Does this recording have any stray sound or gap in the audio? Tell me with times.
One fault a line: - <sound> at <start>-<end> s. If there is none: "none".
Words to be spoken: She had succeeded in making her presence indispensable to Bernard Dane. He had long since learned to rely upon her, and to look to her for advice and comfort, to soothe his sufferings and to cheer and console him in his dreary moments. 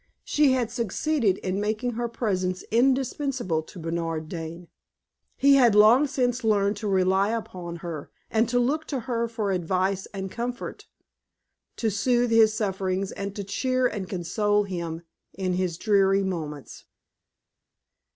none